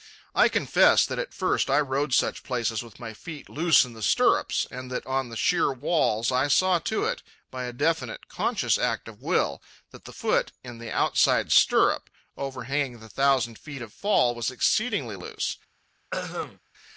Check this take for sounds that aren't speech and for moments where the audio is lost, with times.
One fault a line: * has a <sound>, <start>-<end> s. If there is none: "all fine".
* has a throat clearing, 16.1-16.6 s